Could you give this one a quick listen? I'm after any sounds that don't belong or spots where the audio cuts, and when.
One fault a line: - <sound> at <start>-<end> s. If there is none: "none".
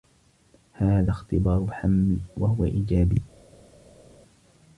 none